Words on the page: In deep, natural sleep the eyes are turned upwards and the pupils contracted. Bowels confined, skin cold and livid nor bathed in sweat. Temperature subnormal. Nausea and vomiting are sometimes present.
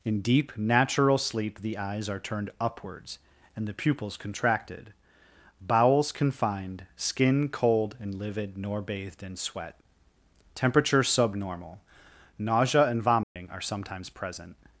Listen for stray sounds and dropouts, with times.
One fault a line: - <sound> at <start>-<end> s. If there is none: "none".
- dropout at 13.2-13.4 s